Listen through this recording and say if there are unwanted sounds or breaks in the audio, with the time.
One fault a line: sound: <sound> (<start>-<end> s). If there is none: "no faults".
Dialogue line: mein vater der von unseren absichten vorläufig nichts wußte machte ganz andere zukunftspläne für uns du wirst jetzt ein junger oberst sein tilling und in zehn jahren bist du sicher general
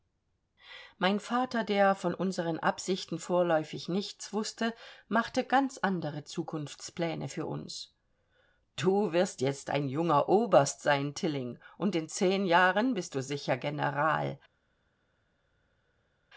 no faults